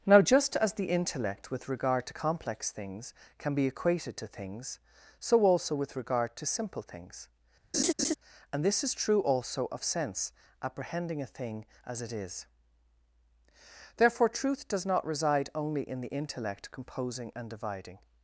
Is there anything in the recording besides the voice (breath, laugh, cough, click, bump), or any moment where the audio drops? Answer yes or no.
yes